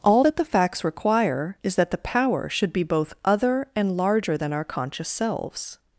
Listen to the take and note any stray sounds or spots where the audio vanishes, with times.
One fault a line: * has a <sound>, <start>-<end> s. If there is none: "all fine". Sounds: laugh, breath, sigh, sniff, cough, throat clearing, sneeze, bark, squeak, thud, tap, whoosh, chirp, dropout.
all fine